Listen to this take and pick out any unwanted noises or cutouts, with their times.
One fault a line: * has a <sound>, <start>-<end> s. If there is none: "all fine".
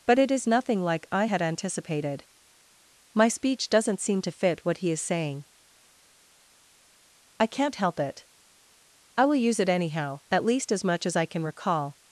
all fine